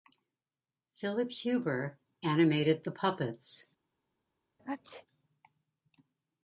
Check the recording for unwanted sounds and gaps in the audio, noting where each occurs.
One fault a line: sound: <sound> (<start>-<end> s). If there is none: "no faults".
sound: sneeze (4.6-5.1 s)